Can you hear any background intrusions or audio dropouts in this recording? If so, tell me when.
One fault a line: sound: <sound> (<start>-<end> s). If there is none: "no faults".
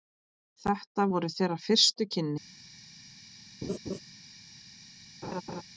sound: laugh (3.6-4.0 s)
sound: laugh (5.2-5.6 s)